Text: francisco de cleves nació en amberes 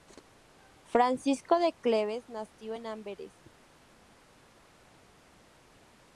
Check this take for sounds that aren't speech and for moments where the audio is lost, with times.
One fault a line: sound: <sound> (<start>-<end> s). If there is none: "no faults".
no faults